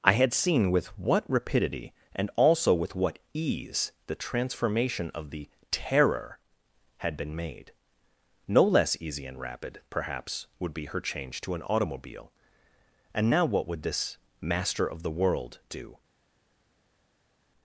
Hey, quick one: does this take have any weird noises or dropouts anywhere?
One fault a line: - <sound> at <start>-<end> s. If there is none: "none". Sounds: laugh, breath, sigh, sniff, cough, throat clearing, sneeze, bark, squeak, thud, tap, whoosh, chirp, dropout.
none